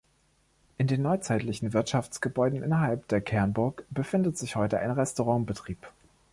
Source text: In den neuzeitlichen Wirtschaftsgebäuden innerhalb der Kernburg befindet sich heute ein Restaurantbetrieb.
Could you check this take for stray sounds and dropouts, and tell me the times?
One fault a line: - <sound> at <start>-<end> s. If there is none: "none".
none